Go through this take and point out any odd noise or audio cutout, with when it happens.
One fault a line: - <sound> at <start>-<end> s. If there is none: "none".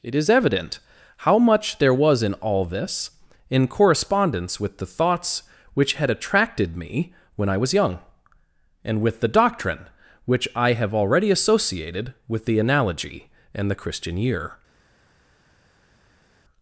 none